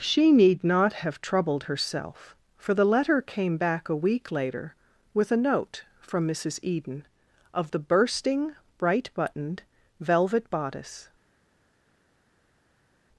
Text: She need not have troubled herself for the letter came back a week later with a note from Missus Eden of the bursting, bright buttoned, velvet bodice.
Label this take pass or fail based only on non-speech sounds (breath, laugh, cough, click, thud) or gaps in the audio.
pass